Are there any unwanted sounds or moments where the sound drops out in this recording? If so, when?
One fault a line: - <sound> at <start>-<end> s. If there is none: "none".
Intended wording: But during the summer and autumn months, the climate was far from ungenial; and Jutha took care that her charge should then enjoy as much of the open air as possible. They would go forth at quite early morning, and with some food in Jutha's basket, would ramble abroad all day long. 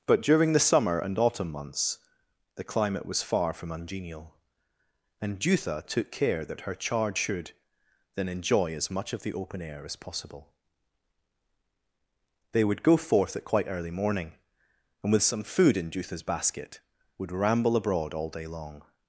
none